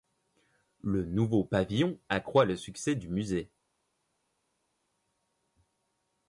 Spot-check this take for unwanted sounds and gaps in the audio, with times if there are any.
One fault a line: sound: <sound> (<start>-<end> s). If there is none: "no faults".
no faults